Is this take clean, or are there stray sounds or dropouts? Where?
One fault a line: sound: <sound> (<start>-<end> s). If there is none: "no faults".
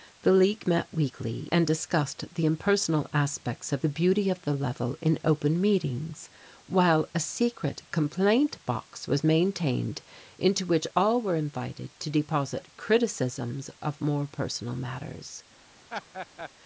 sound: laugh (15.9-16.5 s)